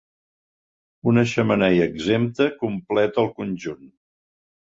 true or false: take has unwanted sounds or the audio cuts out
false